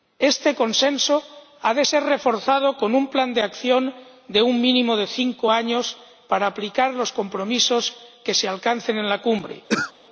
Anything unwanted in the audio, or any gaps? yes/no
yes